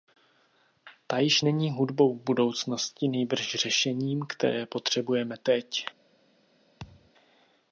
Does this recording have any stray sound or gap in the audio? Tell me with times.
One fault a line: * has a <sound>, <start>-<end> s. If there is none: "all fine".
* has a thud, 6.8-7.1 s